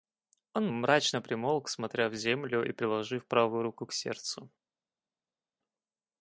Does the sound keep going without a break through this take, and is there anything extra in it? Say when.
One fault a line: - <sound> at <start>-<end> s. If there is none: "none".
none